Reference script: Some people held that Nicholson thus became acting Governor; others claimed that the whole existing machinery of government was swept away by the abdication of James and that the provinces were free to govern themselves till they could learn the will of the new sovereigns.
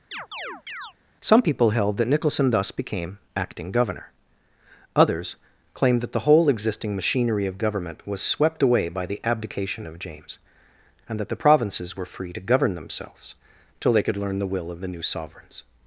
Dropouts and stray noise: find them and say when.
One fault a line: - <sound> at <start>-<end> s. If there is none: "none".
- chirp at 0.1-0.9 s